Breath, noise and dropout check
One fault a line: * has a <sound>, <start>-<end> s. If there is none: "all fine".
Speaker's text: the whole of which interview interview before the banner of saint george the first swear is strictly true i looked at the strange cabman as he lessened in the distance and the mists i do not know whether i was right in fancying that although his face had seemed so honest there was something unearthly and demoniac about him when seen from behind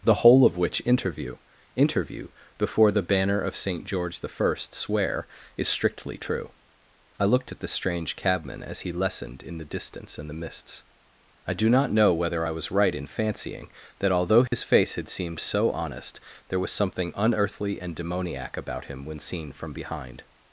* has a dropout, 14.5-14.5 s